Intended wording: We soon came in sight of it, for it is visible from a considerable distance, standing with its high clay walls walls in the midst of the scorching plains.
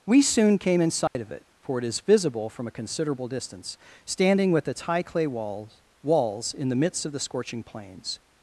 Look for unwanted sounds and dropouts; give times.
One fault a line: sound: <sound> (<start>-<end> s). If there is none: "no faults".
sound: dropout (1.1-1.2 s)